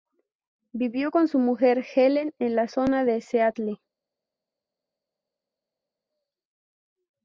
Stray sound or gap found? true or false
false